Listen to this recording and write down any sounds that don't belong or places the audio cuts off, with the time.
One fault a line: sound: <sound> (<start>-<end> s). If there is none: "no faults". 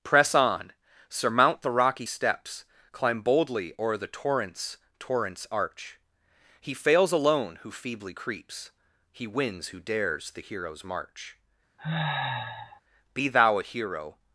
sound: sniff (11.8-12.8 s)